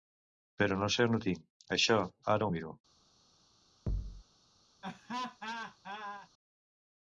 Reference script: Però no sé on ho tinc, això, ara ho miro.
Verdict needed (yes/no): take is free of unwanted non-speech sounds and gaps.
no